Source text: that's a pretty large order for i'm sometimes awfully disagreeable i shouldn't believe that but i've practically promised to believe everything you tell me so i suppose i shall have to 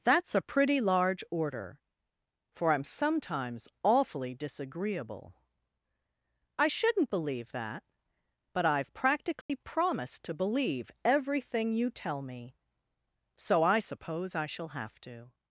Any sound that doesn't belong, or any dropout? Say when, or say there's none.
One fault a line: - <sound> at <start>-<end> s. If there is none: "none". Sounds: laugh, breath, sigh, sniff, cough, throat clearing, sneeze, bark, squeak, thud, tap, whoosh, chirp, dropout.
- dropout at 9.4-9.5 s